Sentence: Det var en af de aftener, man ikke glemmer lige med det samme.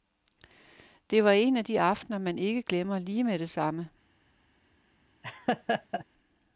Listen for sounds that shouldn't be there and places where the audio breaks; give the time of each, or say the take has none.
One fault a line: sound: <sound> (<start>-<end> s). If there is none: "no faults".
sound: laugh (5.2-6.0 s)